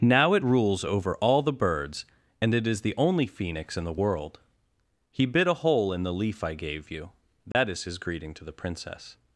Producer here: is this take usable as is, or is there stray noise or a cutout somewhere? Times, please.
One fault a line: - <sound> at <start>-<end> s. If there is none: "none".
- dropout at 7.5-7.5 s